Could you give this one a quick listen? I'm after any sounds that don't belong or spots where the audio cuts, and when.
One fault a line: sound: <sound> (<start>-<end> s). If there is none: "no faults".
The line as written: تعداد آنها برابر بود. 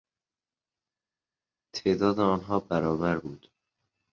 no faults